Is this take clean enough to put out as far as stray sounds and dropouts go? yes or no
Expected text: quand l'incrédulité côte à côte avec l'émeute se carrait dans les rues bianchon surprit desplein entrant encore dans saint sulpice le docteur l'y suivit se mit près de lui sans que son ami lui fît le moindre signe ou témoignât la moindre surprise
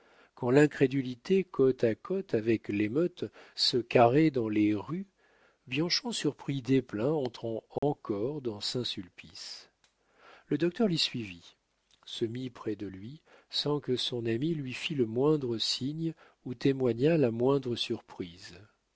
no